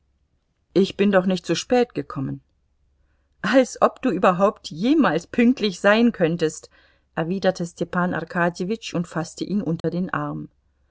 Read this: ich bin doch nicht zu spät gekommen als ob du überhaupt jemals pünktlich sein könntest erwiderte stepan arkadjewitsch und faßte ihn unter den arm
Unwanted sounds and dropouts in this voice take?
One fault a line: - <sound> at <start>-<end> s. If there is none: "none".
- dropout at 9.8-9.8 s